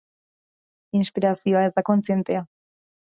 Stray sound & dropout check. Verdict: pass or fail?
pass